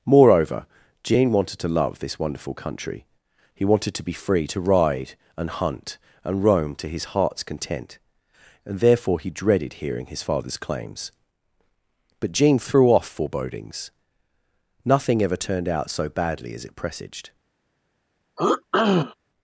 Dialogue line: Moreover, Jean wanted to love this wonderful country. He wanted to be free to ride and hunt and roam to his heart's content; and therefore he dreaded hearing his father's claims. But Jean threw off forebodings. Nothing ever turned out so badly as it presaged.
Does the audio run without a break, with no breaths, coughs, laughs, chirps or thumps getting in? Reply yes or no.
no